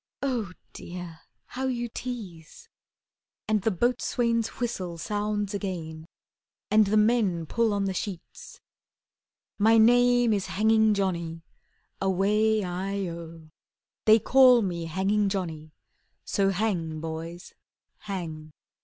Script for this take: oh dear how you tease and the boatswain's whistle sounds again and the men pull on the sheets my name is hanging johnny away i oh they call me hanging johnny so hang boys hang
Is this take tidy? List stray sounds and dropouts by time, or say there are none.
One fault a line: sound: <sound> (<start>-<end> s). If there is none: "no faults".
no faults